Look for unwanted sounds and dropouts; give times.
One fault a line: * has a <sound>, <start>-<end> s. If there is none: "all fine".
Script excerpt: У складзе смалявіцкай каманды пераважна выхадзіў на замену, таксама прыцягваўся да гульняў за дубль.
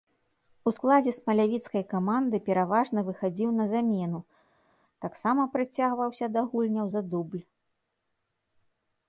all fine